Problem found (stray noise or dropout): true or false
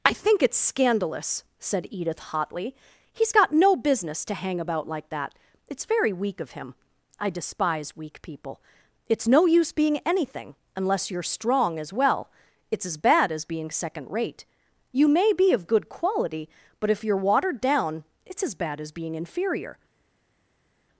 false